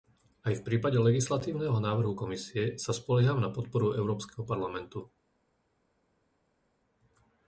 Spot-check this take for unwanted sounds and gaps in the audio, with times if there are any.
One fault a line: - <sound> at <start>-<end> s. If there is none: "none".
none